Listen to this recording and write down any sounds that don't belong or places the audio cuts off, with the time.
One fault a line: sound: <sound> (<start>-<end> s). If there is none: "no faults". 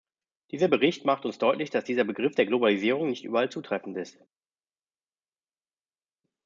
no faults